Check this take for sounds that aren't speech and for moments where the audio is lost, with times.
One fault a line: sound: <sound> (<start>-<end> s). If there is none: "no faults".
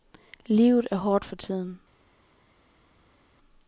no faults